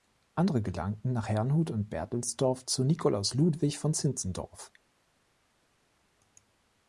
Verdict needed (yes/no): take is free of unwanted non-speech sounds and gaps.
yes